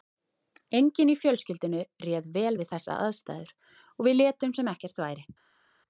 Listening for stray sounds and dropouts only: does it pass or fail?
pass